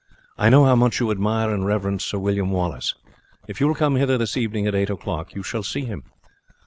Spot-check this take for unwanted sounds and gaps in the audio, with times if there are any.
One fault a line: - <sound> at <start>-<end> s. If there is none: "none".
none